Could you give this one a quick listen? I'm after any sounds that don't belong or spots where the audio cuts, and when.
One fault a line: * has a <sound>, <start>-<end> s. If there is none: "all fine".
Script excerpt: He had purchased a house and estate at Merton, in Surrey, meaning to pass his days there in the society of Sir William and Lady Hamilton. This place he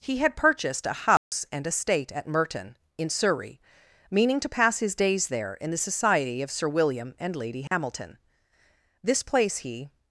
* has a dropout, 1.2-1.3 s
* has a dropout, 7.7-7.7 s